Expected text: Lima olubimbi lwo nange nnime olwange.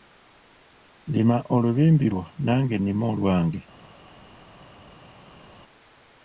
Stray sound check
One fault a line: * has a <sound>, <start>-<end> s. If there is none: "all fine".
all fine